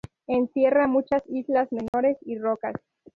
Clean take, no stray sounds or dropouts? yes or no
no